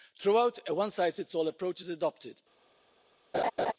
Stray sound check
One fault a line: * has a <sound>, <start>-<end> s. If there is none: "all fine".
* has a laugh, 3.3-3.7 s